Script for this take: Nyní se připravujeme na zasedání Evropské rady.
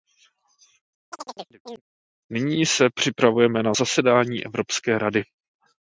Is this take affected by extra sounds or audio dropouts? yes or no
yes